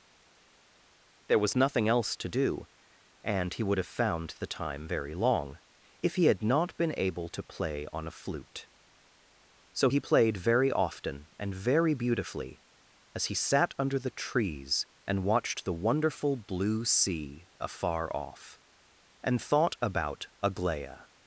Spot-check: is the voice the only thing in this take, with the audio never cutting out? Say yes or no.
yes